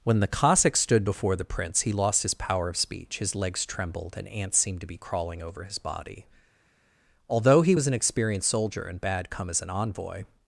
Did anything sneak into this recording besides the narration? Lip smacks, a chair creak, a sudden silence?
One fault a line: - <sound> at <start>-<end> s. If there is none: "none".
none